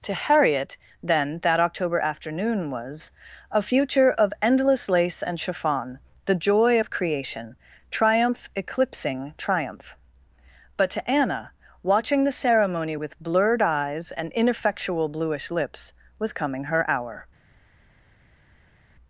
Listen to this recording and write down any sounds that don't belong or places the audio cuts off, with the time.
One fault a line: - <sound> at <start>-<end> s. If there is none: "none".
none